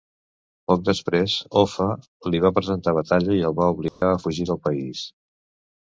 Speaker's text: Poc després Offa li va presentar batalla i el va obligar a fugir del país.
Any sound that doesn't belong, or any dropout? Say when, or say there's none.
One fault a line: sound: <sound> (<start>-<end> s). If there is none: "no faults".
sound: dropout (3.9-4.0 s)